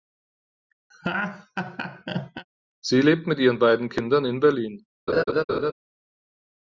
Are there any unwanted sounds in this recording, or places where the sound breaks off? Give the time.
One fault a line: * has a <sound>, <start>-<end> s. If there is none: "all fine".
* has a laugh, 0.9-2.5 s
* has a laugh, 5.1-5.7 s